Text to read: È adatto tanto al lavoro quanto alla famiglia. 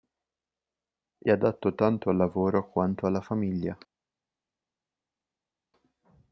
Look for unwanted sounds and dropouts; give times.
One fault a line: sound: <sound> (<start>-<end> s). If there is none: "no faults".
no faults